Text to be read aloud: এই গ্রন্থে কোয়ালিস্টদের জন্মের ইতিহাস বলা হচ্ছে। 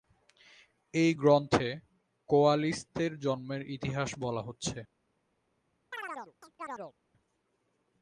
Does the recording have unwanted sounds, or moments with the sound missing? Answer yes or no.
yes